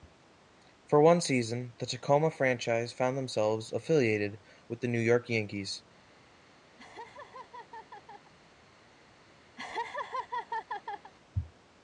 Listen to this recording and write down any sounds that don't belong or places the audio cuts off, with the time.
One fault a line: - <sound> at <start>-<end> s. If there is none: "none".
- laugh at 6.8-8.3 s
- laugh at 9.6-11.1 s